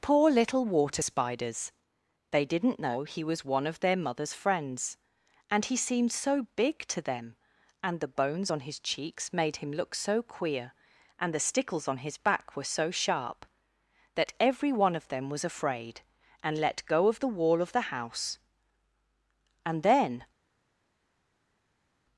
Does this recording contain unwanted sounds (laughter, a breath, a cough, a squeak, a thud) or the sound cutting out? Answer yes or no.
no